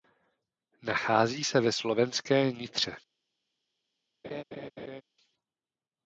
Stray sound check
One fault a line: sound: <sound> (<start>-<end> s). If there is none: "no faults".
sound: laugh (4.2-5.0 s)